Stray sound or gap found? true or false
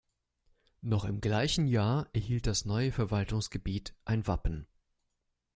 false